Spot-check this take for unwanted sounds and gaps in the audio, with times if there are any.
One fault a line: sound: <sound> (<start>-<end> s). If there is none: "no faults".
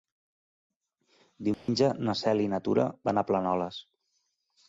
sound: dropout (1.5-1.7 s)